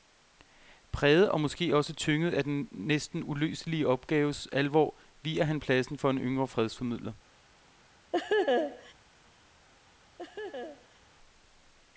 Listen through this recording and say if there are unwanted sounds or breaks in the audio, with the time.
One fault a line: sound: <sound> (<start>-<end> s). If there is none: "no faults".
sound: laugh (8.1-8.9 s)
sound: laugh (10.2-11.0 s)